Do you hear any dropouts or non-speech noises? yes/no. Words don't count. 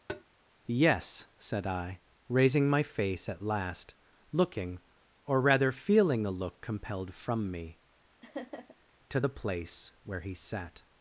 yes